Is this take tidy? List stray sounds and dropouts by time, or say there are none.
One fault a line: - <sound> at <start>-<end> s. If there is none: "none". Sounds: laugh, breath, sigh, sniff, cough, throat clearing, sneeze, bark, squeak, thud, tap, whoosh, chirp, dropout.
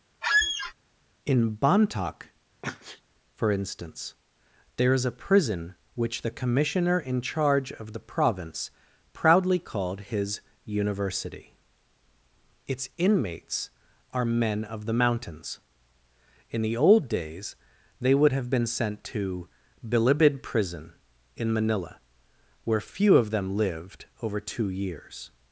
- squeak at 0.2-0.7 s
- sneeze at 2.6-3.0 s